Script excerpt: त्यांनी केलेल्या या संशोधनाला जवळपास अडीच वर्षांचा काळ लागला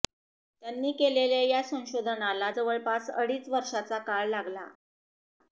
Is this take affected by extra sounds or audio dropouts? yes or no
no